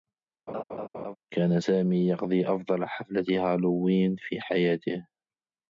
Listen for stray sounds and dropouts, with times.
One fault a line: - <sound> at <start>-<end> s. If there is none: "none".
- laugh at 0.5-1.2 s